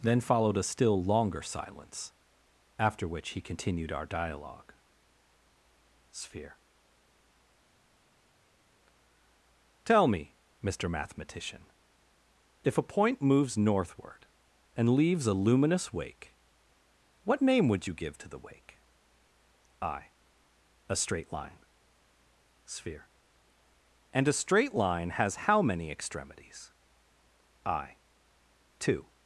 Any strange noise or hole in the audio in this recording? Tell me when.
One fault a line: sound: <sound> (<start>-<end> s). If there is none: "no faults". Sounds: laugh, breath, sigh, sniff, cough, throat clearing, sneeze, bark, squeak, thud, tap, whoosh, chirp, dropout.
no faults